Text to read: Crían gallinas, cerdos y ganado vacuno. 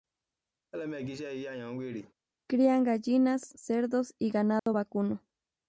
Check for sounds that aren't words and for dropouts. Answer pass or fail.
fail